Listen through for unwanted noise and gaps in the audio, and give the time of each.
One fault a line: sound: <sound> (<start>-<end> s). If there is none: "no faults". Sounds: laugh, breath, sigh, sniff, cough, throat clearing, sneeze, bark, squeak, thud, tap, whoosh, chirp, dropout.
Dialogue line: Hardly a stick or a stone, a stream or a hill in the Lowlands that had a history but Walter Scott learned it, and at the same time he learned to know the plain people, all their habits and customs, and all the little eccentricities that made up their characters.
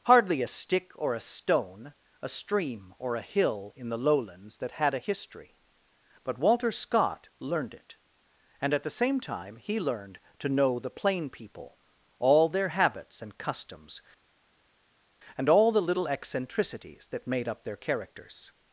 no faults